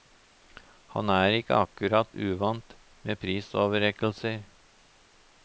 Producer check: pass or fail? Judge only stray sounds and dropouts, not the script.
pass